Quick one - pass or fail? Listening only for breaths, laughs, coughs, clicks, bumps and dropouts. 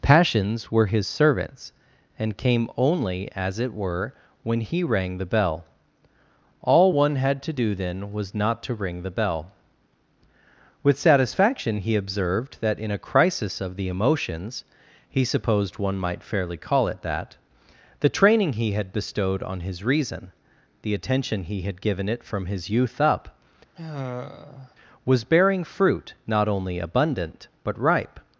fail